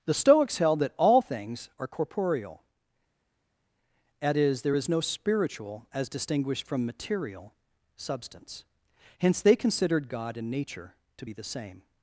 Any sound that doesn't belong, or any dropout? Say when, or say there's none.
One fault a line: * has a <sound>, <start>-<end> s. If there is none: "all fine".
all fine